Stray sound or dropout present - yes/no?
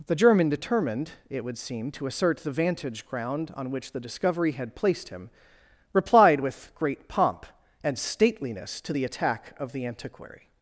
no